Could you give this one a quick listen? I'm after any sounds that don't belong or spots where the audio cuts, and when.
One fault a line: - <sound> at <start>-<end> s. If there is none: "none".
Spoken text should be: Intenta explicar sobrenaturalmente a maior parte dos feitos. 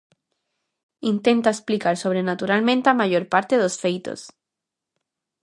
none